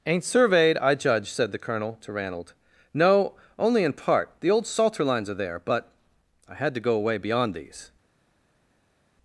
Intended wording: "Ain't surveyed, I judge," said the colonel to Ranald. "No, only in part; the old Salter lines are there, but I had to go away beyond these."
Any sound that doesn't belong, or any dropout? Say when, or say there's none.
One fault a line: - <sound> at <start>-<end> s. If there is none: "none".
none